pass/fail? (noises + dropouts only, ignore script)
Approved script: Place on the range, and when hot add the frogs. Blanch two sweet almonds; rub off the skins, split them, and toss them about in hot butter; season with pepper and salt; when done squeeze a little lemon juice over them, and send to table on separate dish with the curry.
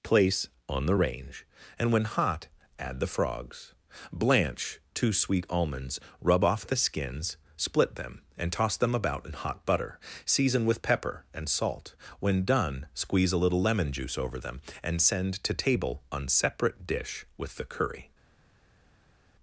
pass